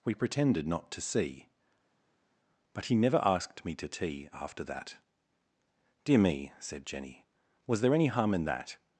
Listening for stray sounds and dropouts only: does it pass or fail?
pass